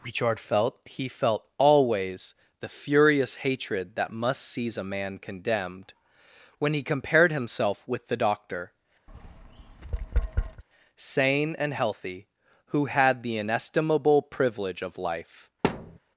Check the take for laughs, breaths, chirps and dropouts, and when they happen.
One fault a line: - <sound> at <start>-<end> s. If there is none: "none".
- tap at 9.1-10.6 s
- thud at 15.6-16.0 s